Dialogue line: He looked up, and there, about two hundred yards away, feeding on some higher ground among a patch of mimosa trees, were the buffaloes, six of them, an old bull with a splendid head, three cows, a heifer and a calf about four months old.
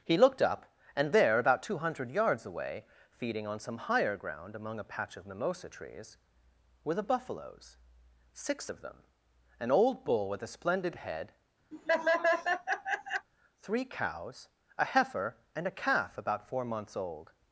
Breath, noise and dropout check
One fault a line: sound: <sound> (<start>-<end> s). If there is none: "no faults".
sound: laugh (11.7-13.3 s)